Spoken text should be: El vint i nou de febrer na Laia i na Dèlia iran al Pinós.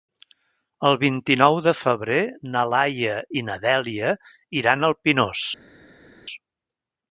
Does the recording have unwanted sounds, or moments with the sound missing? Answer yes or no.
no